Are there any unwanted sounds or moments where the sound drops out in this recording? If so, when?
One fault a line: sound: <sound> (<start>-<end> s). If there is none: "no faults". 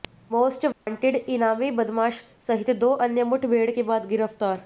sound: dropout (0.7-0.9 s)